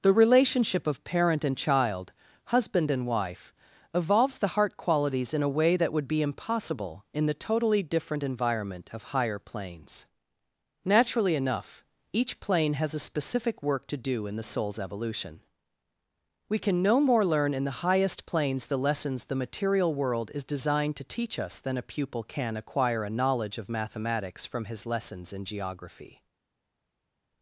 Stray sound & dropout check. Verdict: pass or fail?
pass